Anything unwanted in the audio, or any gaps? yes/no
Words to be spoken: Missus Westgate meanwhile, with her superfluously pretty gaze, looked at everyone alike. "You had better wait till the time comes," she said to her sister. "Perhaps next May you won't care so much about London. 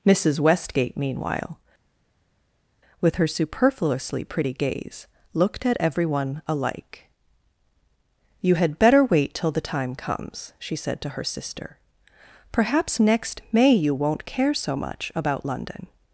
no